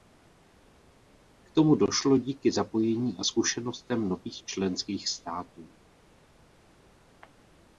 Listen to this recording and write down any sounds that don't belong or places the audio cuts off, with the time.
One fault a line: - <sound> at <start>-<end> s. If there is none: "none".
none